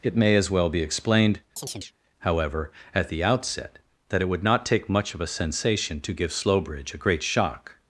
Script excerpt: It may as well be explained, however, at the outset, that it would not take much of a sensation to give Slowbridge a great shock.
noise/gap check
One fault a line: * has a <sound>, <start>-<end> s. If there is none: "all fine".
* has a chirp, 1.6-1.9 s